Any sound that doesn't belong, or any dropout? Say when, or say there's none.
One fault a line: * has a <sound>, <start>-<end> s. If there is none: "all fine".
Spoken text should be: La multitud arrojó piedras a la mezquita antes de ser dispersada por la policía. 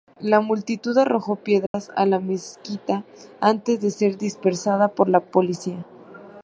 * has a dropout, 1.7-1.7 s